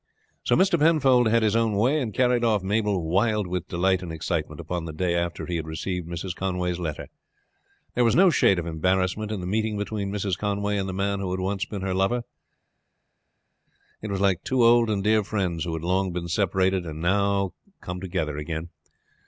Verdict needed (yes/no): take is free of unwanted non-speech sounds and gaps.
yes